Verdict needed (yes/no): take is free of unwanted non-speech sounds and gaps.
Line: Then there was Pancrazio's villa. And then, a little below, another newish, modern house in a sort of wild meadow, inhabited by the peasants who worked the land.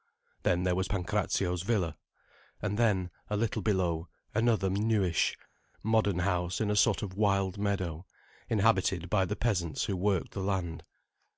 yes